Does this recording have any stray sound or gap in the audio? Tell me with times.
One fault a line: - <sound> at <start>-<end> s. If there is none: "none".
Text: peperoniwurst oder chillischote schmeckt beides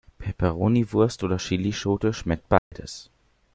- dropout at 2.6-2.7 s